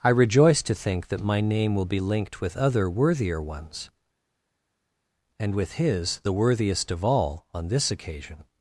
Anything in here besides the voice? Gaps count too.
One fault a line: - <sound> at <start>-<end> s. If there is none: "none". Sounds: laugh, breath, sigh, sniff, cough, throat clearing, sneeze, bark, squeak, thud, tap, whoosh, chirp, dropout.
none